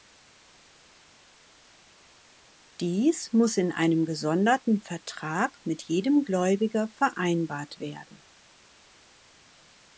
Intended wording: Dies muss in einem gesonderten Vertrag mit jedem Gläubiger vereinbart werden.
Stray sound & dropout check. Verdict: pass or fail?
pass